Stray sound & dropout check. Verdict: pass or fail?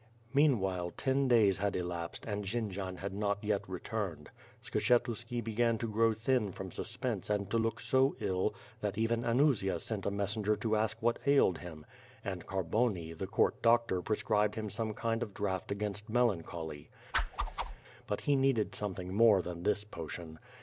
fail